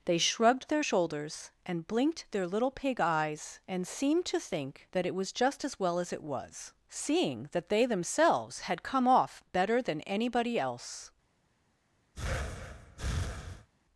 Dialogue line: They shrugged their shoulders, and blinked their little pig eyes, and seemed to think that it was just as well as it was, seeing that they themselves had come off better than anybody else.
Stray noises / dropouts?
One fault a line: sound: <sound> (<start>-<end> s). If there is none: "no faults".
sound: breath (12.1-13.7 s)